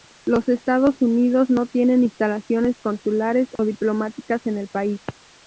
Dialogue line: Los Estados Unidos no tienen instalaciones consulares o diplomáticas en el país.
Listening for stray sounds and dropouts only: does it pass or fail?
fail